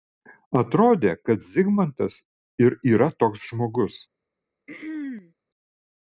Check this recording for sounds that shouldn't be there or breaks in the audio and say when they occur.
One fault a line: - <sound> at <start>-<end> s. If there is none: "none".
- throat clearing at 4.7-5.3 s